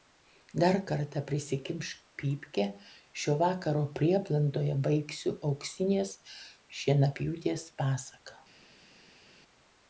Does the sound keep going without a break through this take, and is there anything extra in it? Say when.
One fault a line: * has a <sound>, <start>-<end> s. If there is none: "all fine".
all fine